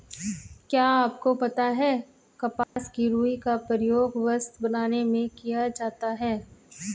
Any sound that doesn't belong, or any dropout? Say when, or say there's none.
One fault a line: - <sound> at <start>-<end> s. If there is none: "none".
- dropout at 2.6-2.8 s